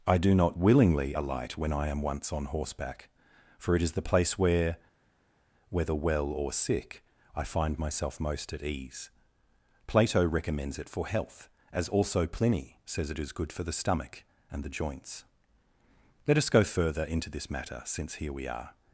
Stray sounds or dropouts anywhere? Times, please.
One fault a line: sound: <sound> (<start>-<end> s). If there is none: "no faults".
no faults